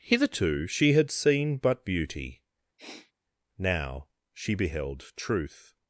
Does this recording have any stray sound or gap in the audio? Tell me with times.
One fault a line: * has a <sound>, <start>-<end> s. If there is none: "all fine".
* has a sniff, 2.8-3.1 s